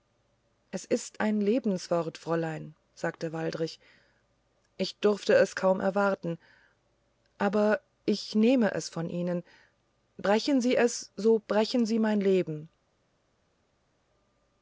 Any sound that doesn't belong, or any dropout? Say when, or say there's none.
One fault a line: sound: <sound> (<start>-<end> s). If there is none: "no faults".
no faults